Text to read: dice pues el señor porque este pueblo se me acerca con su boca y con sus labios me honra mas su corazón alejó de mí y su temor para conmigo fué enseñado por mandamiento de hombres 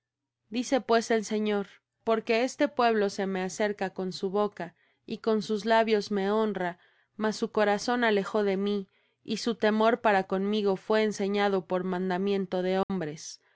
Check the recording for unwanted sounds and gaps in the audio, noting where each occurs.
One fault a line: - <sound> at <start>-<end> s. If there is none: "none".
- dropout at 12.8-12.9 s